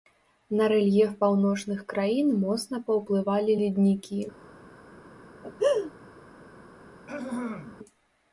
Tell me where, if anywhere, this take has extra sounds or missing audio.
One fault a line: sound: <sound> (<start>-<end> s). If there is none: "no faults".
sound: laugh (5.4-5.9 s)
sound: throat clearing (7.1-7.8 s)